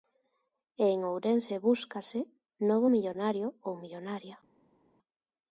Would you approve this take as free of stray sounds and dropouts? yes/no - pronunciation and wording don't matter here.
yes